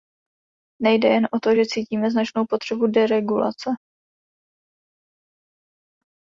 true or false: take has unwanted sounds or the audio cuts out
false